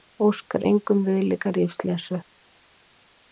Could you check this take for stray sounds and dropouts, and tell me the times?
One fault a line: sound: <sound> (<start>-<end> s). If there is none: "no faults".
no faults